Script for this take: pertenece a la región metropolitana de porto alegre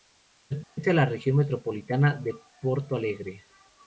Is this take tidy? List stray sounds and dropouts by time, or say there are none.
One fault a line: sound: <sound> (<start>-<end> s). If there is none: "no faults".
sound: dropout (0.6-0.8 s)